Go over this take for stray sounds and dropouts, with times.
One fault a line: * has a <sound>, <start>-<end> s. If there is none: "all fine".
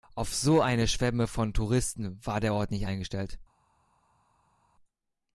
all fine